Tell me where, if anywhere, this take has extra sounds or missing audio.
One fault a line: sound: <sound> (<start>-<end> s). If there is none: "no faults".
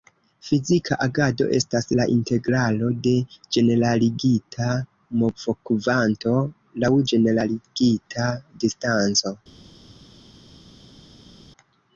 no faults